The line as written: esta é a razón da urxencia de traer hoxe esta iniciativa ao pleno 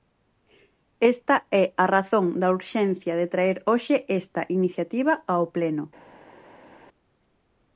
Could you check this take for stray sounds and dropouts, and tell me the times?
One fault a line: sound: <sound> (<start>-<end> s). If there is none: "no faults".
no faults